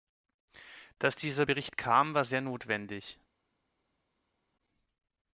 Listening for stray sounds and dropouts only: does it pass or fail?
pass